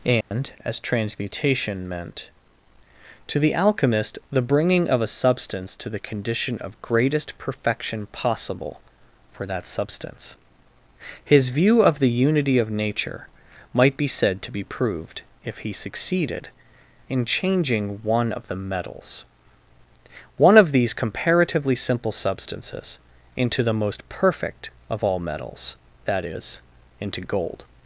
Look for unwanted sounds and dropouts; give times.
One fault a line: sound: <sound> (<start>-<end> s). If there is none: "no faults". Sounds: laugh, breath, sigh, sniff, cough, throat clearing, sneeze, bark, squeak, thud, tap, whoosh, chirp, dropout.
sound: dropout (0.2-0.3 s)